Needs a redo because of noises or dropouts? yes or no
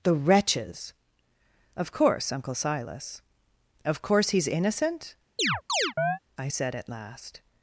yes